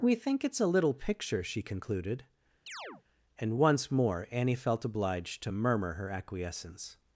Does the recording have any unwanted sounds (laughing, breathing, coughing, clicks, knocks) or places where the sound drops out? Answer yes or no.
yes